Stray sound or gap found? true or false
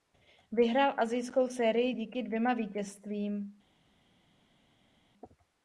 false